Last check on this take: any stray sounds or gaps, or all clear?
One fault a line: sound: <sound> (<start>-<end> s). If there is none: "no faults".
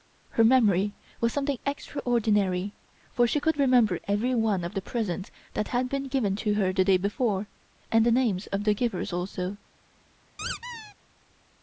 sound: squeak (10.4-10.9 s)